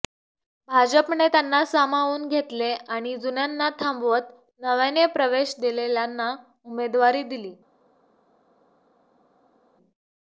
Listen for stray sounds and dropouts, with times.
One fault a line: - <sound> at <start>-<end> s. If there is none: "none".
none